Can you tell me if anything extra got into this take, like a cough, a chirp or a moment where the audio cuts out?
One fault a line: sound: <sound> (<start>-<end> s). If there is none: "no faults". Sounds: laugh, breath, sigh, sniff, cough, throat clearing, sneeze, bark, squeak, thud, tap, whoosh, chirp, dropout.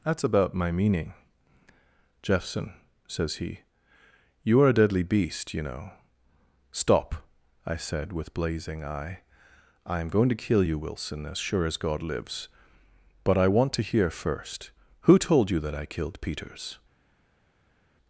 no faults